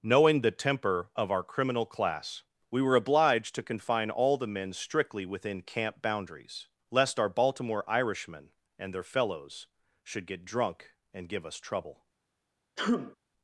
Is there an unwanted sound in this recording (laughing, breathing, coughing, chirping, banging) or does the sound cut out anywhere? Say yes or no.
yes